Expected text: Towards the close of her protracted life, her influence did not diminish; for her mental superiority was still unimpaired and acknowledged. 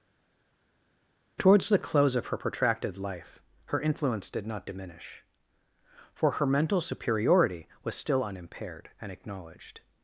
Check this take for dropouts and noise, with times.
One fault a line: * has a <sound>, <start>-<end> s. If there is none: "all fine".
all fine